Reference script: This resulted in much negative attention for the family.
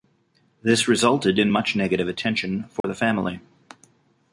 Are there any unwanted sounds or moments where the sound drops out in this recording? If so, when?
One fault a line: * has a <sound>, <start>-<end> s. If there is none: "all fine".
* has a dropout, 2.8-2.8 s